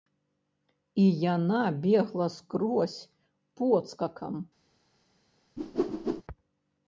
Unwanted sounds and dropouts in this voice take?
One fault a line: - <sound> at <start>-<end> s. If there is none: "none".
- whoosh at 5.6-6.2 s